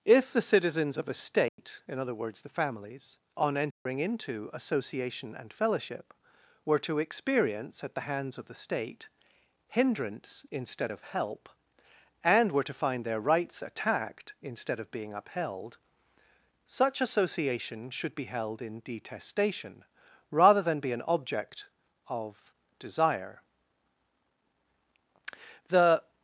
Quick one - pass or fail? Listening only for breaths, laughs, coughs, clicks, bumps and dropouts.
fail